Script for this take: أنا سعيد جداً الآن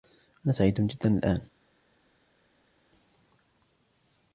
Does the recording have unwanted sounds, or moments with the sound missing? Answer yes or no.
no